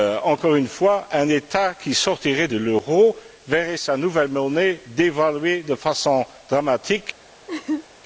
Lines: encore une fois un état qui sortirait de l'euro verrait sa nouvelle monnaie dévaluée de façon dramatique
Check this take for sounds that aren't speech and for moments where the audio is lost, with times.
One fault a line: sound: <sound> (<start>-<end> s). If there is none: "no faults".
sound: laugh (7.5-7.9 s)